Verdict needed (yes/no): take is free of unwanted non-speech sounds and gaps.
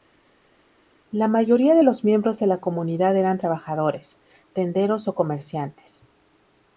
yes